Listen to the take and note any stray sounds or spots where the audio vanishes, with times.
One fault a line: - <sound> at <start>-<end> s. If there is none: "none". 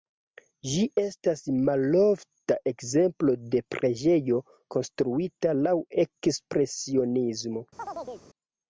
- chirp at 7.8-8.3 s